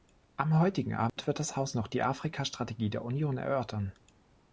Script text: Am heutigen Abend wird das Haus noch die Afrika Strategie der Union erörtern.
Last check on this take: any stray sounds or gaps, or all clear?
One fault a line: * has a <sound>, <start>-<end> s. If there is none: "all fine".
* has a dropout, 1.1-1.2 s